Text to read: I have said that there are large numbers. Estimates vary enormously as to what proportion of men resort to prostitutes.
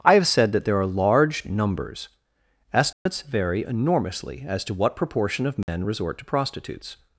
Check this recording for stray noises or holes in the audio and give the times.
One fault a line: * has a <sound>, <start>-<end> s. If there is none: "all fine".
* has a dropout, 2.9-3.1 s
* has a dropout, 5.6-5.7 s